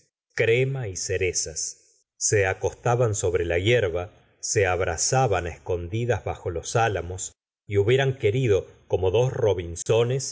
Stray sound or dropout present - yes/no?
yes